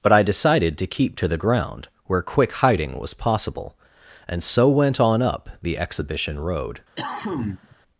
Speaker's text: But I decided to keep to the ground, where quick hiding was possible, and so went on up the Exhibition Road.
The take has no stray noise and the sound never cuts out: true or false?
false